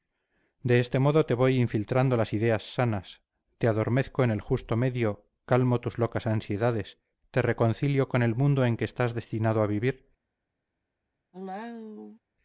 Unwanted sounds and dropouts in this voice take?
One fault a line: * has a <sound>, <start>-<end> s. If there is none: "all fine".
* has a cough, 11.3-12.2 s